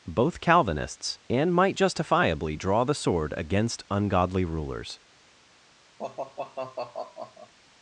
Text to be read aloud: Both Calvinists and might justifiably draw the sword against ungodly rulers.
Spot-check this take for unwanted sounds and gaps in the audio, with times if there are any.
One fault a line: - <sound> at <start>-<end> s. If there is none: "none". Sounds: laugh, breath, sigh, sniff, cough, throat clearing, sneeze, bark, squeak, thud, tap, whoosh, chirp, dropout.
- sigh at 6.0-7.5 s